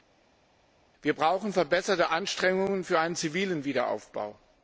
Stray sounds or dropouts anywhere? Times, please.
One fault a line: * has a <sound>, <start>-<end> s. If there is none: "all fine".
all fine